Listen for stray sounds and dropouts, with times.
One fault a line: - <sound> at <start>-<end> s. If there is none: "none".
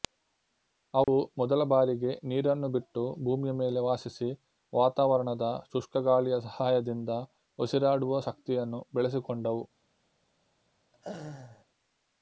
- dropout at 1.0-1.1 s
- laugh at 10.9-11.7 s